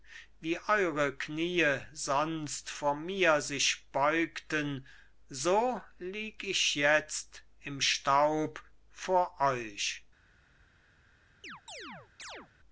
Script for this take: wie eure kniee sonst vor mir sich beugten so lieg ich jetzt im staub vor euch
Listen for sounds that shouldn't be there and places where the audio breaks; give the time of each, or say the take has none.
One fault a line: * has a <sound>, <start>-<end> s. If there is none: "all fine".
* has a chirp, 11.4-12.5 s